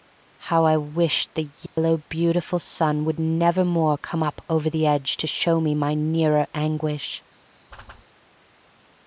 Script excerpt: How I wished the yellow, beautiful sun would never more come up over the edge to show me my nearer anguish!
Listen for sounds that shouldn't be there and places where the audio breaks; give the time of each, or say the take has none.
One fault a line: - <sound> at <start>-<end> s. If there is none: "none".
- dropout at 1.7-1.8 s
- whoosh at 7.7-8.1 s